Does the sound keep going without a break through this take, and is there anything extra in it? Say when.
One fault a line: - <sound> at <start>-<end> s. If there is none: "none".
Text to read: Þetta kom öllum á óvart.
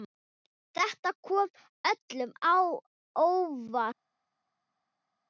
none